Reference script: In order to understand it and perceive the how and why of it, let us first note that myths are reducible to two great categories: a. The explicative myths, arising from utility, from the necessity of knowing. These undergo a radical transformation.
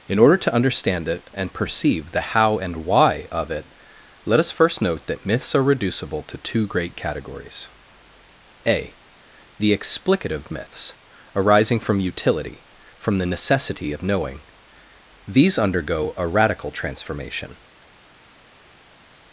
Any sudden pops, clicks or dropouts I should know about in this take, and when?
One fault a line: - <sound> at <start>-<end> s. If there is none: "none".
none